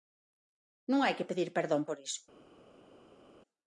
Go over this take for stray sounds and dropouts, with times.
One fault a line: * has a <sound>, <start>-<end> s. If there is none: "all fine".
all fine